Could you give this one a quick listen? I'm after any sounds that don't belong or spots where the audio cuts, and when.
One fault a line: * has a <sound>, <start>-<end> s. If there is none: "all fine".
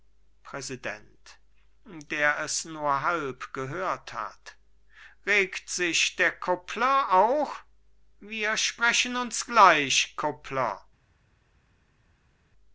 all fine